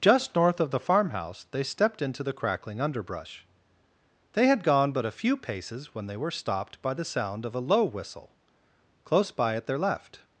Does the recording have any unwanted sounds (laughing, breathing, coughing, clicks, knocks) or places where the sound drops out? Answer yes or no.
no